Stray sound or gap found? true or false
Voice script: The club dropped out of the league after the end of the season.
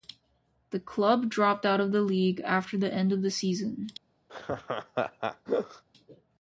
true